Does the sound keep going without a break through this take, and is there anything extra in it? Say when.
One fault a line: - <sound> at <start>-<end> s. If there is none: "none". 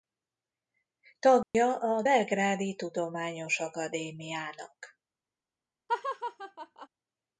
- dropout at 1.4-1.5 s
- laugh at 5.9-6.9 s